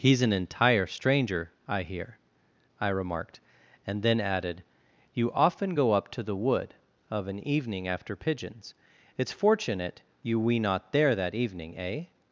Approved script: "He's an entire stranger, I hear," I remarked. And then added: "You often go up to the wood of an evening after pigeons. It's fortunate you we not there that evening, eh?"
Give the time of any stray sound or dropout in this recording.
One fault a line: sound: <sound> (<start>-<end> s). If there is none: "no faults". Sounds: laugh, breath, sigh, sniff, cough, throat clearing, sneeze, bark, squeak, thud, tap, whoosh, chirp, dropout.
no faults